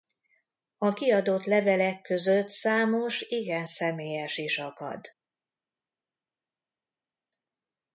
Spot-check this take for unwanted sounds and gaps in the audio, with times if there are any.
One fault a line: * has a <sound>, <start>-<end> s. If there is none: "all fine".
all fine